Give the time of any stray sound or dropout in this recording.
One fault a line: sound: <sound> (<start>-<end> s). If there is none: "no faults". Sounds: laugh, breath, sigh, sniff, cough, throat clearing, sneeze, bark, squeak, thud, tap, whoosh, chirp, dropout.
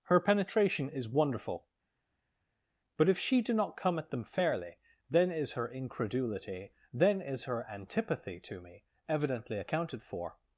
no faults